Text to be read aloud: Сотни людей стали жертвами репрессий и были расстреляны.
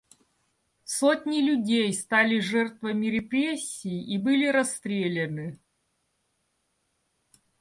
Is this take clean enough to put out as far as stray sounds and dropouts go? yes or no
yes